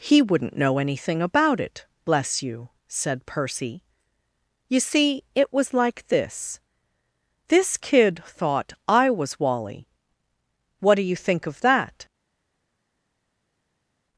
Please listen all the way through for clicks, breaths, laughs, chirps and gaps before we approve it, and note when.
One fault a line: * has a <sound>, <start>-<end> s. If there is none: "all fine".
all fine